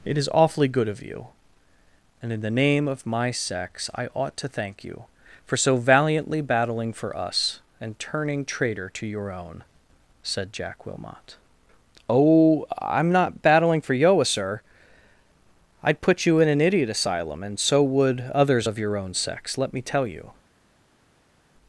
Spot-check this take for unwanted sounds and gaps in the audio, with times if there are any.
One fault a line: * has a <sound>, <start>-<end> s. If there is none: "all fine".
all fine